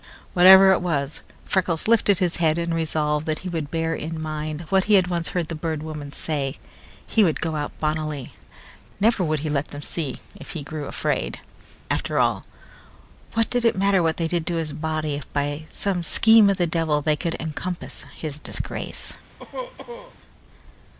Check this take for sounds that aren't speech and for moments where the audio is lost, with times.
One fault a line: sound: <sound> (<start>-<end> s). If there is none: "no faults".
sound: cough (19.4-20.2 s)